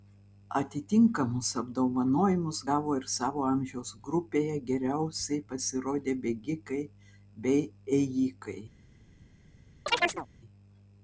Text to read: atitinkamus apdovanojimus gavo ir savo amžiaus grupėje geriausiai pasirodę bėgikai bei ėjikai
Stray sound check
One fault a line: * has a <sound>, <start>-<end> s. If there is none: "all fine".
* has a chirp, 9.9-10.3 s